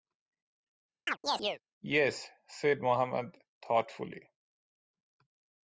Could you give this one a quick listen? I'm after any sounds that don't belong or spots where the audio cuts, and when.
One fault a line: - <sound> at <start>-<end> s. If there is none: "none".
- chirp at 1.1-1.6 s